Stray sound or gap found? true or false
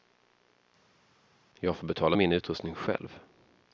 false